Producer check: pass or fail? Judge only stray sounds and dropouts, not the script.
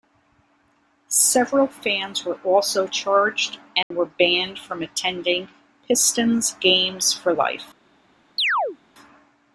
fail